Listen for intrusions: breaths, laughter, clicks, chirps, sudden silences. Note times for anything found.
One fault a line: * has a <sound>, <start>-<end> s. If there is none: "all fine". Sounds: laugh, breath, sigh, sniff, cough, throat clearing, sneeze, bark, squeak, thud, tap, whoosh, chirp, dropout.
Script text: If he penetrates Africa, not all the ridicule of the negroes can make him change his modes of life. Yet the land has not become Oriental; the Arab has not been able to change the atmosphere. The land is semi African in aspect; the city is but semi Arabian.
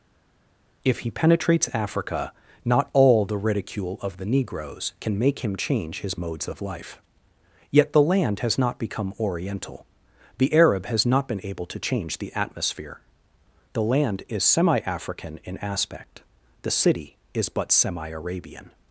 all fine